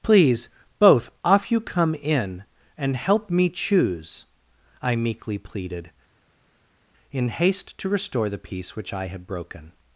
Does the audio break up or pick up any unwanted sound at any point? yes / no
no